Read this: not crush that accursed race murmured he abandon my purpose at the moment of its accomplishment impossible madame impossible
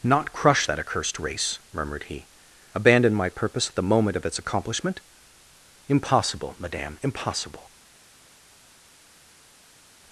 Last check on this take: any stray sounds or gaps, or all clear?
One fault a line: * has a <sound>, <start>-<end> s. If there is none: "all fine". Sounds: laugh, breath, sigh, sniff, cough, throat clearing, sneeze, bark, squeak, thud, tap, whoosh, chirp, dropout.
all fine